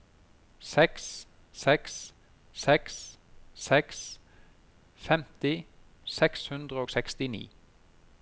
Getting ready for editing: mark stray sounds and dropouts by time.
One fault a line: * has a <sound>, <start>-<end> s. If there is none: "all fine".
all fine